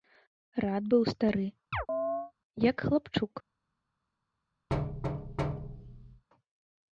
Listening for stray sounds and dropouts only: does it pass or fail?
fail